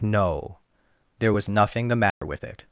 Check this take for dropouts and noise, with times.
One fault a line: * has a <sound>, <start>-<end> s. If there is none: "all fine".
* has a dropout, 2.1-2.2 s